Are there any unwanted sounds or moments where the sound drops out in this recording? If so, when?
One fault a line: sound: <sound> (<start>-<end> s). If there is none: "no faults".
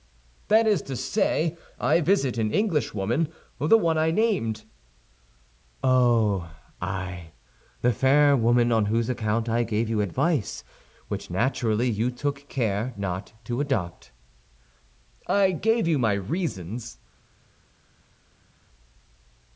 no faults